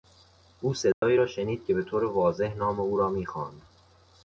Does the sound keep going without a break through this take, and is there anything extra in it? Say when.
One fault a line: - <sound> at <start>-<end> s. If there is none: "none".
- dropout at 0.9-1.0 s